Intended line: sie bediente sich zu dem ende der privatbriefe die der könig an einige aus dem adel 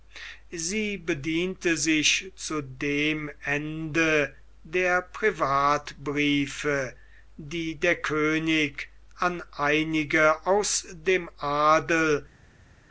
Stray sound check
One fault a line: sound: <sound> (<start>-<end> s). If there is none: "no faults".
no faults